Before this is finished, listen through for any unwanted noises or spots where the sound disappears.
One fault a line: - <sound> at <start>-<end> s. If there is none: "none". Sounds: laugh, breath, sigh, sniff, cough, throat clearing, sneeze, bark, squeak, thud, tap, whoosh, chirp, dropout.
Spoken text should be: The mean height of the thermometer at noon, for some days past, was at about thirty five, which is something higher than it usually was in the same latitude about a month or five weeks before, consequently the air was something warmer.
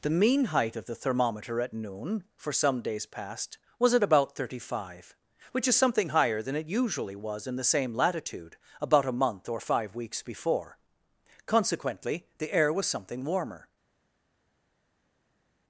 none